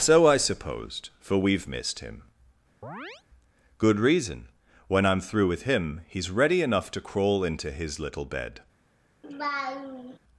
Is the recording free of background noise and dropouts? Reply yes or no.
no